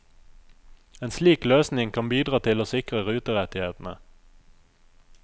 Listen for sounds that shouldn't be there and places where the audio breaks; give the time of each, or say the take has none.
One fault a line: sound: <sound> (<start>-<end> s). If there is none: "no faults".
no faults